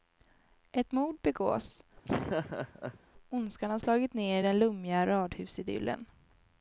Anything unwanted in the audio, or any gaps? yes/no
yes